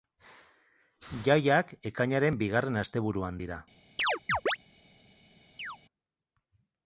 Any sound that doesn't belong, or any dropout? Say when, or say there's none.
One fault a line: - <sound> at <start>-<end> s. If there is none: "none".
- chirp at 4.0-4.6 s
- chirp at 5.6-5.8 s